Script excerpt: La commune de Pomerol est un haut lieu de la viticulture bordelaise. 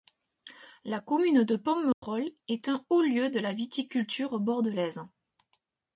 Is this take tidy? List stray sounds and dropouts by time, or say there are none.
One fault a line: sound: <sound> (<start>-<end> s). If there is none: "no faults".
sound: dropout (1.9-2.0 s)